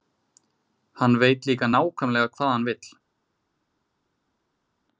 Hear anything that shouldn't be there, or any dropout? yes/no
no